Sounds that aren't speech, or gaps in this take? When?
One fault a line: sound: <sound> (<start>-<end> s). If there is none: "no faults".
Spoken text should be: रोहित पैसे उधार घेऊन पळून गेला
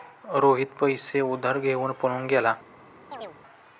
sound: chirp (3.1-3.4 s)